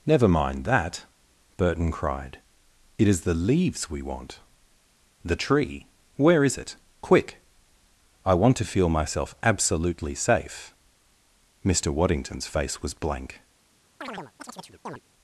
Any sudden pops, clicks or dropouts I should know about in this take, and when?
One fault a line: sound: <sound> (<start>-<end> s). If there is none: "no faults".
sound: chirp (14.0-15.0 s)